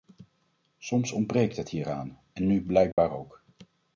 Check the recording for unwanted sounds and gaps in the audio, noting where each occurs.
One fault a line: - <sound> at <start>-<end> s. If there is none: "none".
- dropout at 2.9-3.0 s